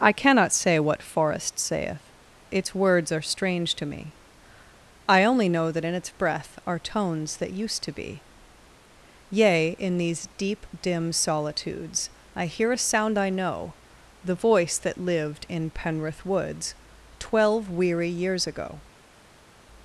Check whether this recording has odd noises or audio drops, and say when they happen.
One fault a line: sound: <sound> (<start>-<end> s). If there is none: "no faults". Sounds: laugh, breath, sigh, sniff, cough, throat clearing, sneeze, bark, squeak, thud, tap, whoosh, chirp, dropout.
no faults